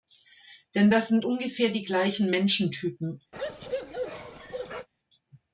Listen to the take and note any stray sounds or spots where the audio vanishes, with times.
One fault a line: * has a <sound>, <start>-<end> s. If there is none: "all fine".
* has a bark, 3.3-4.9 s